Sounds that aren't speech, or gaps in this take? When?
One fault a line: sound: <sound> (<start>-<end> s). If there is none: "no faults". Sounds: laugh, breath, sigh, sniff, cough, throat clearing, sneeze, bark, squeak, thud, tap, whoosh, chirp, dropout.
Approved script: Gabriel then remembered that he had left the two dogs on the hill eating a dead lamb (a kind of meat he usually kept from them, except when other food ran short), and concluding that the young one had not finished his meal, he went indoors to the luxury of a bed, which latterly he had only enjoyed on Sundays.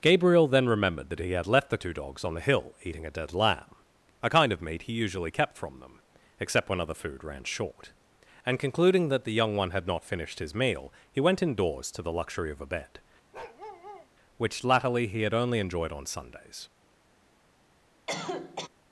sound: bark (13.3-14.1 s)
sound: cough (18.1-18.7 s)